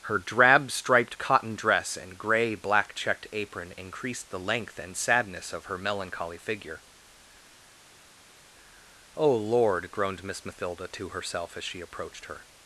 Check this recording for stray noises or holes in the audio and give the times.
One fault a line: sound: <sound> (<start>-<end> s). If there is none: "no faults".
no faults